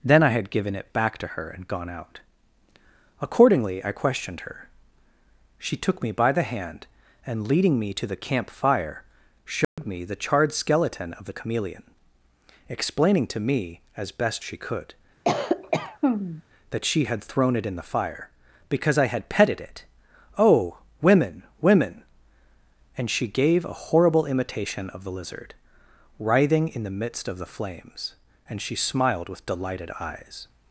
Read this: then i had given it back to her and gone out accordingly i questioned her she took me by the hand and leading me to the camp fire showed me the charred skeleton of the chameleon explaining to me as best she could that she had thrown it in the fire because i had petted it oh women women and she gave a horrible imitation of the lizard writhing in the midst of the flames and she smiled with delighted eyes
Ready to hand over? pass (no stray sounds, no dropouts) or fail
fail